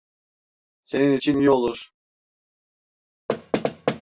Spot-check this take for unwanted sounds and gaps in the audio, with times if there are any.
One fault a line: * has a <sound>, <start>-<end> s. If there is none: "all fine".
* has a thud, 3.3-4.0 s